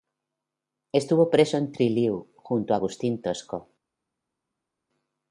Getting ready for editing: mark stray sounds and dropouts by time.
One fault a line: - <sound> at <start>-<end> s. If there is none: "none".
none